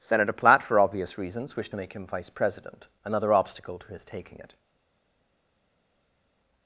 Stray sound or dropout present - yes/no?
no